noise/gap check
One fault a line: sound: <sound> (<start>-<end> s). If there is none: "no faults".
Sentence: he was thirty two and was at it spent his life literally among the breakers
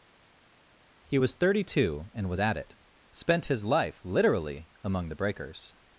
no faults